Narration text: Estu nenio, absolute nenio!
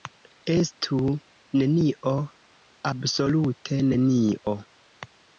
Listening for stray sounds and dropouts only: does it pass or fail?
pass